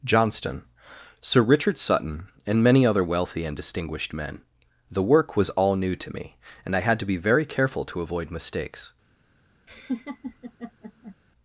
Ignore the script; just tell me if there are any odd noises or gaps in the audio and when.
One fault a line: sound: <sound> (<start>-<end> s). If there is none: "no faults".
sound: laugh (9.7-11.2 s)